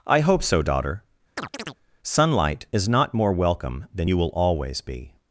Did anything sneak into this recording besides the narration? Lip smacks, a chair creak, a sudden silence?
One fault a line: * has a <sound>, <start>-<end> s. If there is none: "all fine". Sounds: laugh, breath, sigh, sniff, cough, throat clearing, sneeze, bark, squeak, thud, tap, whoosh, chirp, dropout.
* has a chirp, 1.4-1.8 s